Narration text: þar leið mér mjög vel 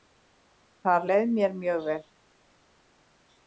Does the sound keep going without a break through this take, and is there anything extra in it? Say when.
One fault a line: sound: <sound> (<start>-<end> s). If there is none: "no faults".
no faults